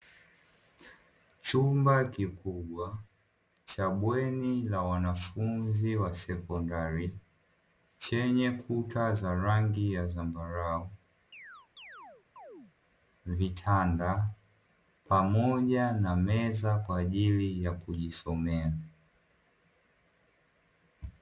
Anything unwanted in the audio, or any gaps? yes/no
yes